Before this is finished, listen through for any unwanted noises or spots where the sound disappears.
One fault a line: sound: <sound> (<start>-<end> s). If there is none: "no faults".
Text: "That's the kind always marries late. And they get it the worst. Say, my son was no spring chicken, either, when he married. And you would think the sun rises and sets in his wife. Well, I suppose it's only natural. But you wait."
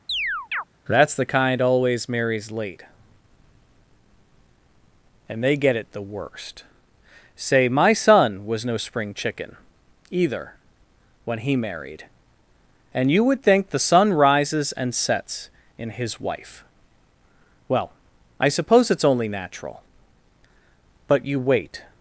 sound: chirp (0.1-0.6 s)